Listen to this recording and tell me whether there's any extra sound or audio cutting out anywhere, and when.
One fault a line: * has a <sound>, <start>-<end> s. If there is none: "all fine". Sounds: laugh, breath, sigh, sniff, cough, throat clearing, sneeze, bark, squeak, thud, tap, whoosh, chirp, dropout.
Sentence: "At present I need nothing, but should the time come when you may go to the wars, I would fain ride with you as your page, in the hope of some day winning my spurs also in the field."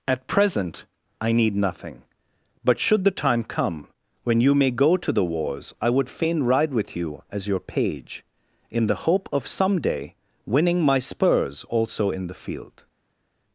all fine